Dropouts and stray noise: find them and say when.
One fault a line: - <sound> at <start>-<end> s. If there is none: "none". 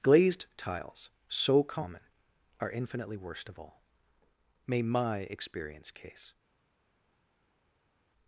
none